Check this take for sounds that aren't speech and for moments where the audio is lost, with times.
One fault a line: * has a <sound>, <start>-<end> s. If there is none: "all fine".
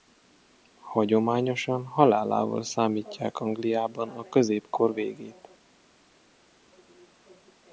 all fine